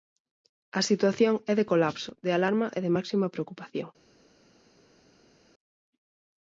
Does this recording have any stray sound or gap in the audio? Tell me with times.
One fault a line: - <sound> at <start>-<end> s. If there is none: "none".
none